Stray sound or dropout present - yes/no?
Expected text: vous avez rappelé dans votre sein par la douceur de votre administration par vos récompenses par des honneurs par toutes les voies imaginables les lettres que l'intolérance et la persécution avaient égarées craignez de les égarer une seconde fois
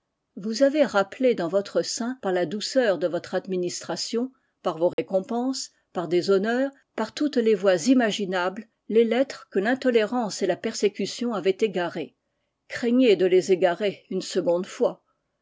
yes